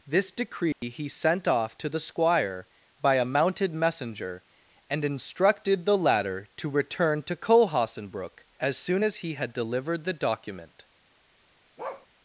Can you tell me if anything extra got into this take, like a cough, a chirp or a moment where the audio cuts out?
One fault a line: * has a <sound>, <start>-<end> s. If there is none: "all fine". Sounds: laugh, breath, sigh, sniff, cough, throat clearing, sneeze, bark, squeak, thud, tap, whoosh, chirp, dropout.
* has a dropout, 0.7-0.8 s
* has a bark, 11.8-12.1 s